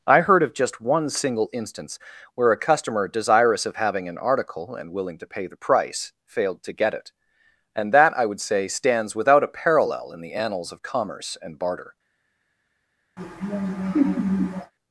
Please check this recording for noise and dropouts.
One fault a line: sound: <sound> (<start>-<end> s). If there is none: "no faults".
sound: laugh (13.2-14.7 s)